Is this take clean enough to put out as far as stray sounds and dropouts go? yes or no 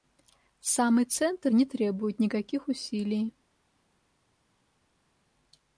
yes